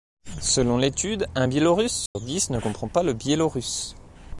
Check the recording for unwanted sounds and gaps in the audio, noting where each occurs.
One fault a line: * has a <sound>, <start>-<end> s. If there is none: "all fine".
* has a dropout, 2.1-2.2 s